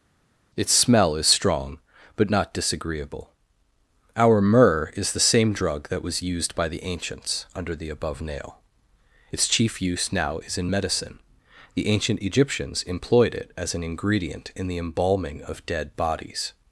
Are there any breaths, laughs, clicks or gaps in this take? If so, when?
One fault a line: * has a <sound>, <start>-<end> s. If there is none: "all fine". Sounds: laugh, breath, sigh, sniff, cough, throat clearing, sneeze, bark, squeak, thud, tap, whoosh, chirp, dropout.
all fine